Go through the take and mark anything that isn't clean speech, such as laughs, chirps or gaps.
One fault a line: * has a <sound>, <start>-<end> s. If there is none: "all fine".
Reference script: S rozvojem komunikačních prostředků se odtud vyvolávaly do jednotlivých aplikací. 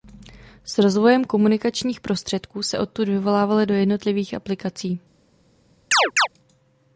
* has a chirp, 5.9-6.3 s